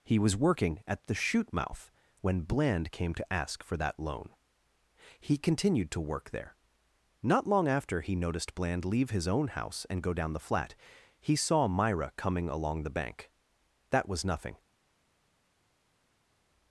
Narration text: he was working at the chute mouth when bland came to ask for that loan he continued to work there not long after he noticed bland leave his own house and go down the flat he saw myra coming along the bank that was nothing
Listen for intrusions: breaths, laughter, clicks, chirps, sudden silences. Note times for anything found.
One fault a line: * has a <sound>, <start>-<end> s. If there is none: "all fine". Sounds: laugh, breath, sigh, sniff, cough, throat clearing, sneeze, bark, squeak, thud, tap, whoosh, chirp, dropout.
all fine